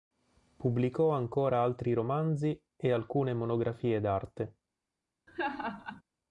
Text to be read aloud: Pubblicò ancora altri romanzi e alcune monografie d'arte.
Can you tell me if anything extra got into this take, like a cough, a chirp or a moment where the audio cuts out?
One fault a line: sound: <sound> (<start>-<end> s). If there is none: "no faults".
sound: laugh (5.3-6.0 s)